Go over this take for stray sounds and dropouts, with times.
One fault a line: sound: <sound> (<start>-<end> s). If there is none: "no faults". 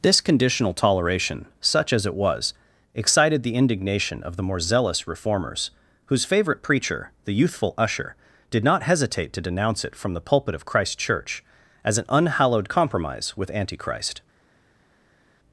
no faults